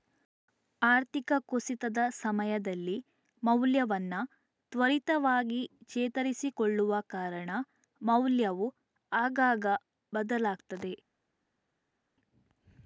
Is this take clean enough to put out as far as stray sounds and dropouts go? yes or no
yes